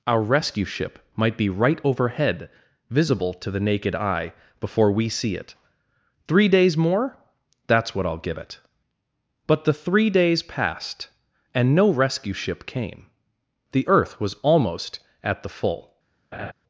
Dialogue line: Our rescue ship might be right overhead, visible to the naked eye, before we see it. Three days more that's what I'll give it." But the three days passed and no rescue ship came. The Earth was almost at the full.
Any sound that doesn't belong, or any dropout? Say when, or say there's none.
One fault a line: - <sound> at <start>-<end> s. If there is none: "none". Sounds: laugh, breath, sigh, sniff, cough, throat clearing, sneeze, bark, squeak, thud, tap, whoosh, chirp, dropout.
- laugh at 16.3-16.5 s